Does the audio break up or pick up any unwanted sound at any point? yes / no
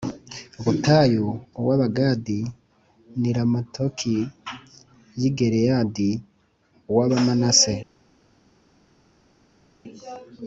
no